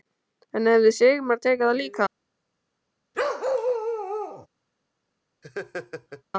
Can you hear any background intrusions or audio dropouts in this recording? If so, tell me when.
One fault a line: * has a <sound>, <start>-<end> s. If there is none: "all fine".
* has a bark, 3.1-4.5 s
* has a laugh, 5.4-6.2 s